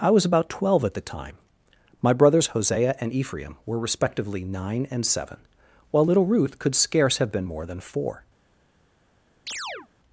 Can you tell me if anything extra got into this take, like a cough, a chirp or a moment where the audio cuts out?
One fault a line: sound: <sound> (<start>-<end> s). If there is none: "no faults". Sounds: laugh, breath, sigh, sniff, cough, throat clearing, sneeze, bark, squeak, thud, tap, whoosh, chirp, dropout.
sound: chirp (9.5-9.9 s)